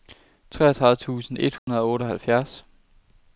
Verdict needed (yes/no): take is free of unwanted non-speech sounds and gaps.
no